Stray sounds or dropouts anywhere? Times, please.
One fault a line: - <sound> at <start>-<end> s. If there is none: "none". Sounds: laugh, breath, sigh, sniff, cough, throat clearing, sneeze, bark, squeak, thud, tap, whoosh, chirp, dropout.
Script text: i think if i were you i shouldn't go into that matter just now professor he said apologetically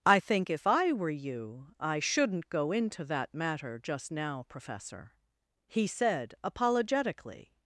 none